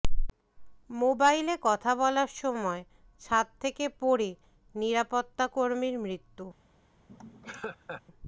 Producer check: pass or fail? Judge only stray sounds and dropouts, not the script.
fail